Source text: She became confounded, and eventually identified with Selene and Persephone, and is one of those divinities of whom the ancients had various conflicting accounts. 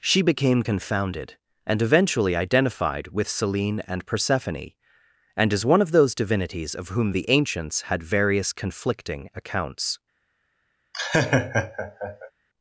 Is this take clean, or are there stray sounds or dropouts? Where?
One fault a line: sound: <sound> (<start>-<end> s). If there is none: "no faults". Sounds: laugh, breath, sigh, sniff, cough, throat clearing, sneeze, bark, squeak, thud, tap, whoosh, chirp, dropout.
sound: laugh (10.9-12.3 s)